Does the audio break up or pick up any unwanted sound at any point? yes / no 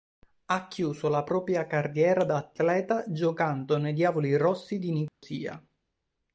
yes